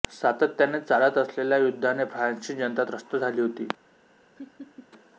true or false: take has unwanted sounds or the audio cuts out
true